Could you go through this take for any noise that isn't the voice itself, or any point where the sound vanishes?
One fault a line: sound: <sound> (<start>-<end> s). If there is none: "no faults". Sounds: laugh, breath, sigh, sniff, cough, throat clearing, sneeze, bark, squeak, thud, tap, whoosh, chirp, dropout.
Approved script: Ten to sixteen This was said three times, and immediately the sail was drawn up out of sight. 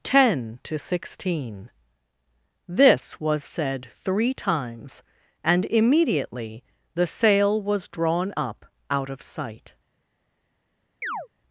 sound: chirp (11.0-11.3 s)